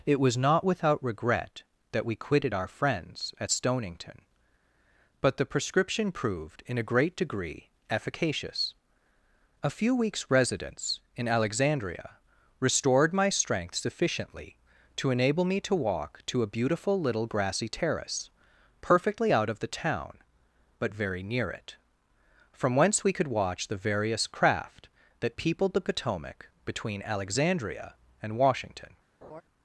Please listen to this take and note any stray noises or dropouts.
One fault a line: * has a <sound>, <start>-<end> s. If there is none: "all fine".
* has a laugh, 29.2-29.4 s